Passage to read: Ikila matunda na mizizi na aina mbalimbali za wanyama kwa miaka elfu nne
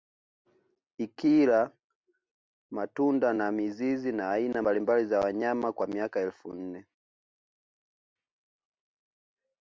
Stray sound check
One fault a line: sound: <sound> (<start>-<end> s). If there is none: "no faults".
no faults